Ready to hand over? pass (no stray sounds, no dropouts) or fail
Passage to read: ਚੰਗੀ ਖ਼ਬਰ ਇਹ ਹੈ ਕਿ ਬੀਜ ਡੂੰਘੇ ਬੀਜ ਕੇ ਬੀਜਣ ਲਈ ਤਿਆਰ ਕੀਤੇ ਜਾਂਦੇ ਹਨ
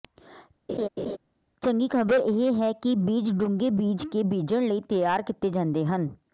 fail